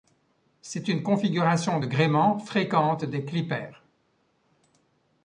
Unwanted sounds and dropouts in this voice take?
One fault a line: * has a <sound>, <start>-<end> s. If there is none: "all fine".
all fine